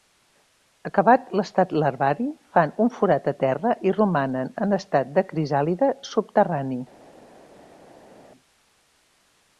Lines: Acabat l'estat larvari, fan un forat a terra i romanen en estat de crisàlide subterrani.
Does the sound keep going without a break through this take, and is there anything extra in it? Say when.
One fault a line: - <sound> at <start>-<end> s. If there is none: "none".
none